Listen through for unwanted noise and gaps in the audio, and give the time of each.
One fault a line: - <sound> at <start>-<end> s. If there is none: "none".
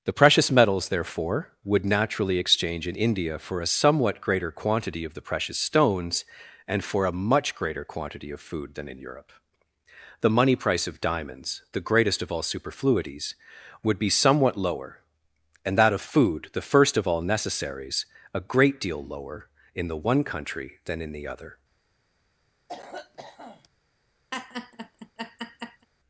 - cough at 22.7-23.7 s
- laugh at 24.3-25.9 s